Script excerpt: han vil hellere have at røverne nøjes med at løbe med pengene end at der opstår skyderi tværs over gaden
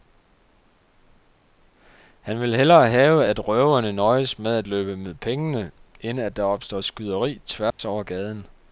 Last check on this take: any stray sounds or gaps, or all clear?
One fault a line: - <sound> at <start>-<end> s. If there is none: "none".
- dropout at 7.7-7.8 s